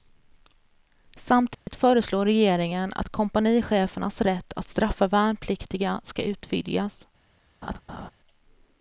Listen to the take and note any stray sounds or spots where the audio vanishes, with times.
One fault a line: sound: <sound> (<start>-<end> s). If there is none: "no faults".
sound: dropout (1.5-1.7 s)
sound: laugh (7.6-8.1 s)